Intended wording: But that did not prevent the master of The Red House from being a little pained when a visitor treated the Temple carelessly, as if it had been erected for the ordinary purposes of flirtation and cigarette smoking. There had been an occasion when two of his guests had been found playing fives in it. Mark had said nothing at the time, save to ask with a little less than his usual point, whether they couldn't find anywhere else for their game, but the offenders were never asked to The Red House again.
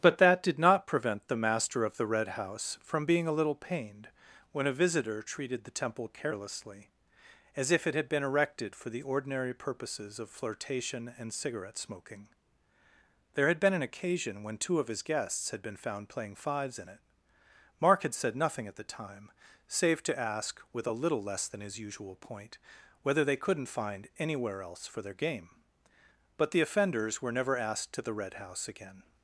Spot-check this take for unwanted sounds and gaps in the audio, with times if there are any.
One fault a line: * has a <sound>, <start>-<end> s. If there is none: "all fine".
all fine